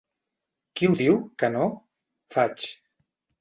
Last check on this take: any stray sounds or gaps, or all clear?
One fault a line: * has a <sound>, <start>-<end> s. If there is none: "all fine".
all fine